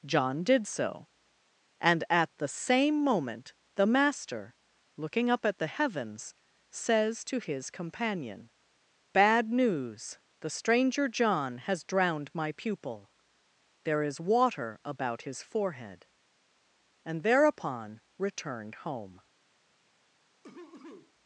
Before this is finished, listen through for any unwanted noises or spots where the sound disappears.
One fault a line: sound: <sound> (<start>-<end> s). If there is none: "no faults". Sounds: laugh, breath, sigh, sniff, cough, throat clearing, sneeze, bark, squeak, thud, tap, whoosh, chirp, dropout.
sound: cough (20.4-21.1 s)